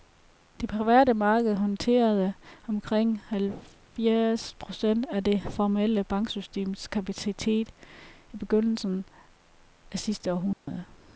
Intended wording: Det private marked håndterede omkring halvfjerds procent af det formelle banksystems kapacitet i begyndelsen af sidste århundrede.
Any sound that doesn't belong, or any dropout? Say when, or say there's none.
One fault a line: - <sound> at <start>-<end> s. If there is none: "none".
- dropout at 10.5-10.7 s